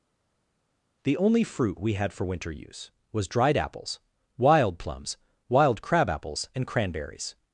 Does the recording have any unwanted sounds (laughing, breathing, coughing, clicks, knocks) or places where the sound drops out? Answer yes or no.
no